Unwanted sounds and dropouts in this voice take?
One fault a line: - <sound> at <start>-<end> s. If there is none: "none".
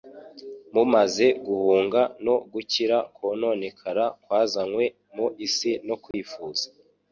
- dropout at 6.1-6.1 s